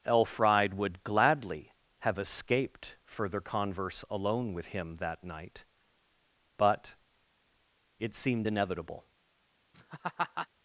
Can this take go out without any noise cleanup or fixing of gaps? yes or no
no